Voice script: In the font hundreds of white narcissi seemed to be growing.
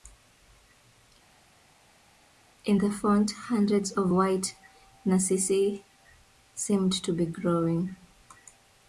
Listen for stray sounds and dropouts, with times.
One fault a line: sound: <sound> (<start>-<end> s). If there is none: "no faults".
no faults